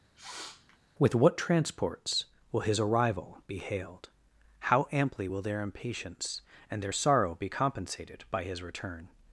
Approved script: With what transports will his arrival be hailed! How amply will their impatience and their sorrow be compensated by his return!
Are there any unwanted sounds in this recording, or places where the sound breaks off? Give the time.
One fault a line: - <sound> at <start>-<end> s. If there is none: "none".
- sniff at 0.2-0.8 s